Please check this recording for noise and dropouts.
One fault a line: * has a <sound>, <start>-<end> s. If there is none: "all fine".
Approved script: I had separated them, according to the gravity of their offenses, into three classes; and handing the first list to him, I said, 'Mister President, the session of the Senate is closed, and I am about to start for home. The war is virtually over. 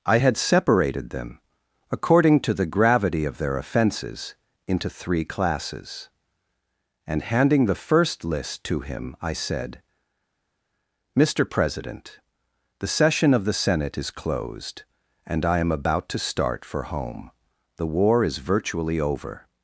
all fine